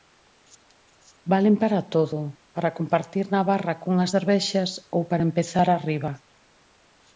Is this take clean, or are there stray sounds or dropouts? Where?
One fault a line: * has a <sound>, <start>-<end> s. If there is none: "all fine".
all fine